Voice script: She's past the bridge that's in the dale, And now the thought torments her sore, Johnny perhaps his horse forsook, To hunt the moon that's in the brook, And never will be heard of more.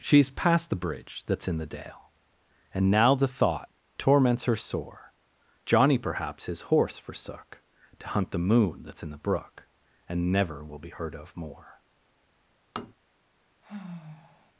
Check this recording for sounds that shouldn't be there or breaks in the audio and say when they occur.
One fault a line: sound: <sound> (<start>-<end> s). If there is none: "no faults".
sound: tap (12.8-12.9 s)
sound: sigh (13.6-14.5 s)